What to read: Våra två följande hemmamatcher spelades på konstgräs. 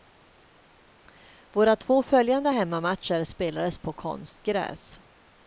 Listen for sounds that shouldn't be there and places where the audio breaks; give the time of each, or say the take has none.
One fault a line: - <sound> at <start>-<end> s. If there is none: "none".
none